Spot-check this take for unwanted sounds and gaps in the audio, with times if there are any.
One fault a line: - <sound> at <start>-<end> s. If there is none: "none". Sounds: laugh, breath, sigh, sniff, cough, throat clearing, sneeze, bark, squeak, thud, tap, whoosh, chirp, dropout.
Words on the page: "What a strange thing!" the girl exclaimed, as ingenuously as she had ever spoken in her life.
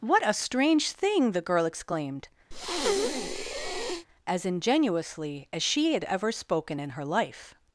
- breath at 2.5-4.1 s